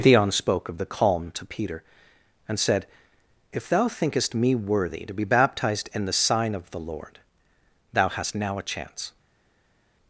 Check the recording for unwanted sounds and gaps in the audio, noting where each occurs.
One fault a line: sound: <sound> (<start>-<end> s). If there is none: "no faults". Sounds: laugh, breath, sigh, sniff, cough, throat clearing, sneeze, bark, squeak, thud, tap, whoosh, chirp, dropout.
no faults